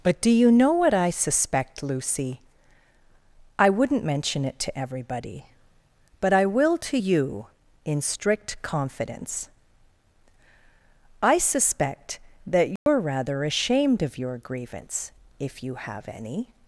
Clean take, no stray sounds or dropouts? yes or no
no